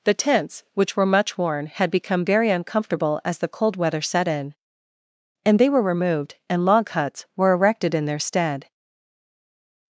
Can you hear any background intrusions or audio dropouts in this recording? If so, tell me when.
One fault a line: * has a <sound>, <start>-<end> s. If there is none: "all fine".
all fine